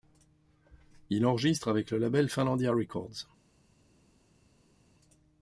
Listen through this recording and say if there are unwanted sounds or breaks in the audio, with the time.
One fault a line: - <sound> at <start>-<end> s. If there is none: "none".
none